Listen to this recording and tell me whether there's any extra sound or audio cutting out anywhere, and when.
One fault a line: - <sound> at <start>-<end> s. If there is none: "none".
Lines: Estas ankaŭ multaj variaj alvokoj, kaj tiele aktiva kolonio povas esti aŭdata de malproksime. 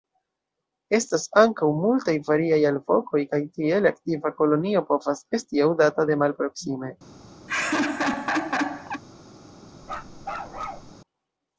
- laugh at 7.5-9.0 s
- bark at 9.8-10.9 s